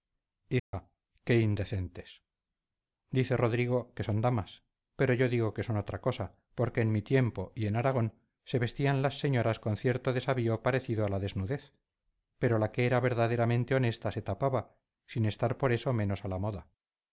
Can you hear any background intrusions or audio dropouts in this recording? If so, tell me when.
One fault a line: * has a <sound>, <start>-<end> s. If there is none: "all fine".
* has a dropout, 0.6-0.7 s